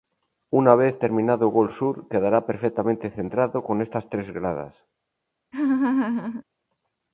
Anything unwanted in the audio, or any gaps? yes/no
yes